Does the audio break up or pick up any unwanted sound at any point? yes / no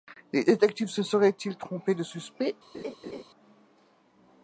yes